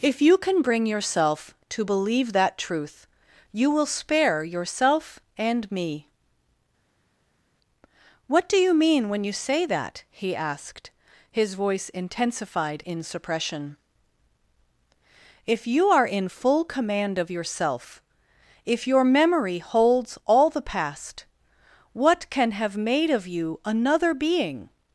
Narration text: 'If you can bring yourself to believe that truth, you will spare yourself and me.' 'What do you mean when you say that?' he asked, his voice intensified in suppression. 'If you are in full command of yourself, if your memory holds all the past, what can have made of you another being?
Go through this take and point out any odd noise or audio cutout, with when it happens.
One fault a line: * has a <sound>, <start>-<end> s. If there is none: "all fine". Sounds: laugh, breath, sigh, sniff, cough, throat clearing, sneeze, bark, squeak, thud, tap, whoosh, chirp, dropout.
all fine